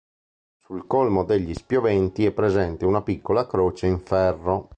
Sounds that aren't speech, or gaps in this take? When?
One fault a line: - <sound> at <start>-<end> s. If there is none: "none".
none